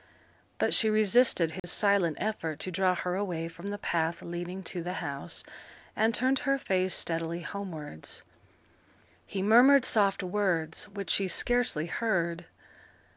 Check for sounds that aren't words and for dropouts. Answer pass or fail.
fail